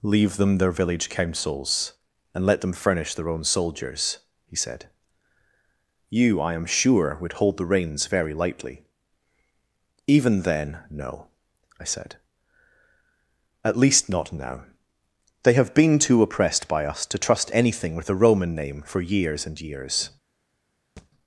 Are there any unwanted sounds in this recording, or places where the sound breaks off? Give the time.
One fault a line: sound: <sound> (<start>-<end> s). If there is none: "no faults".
sound: thud (21.0-21.1 s)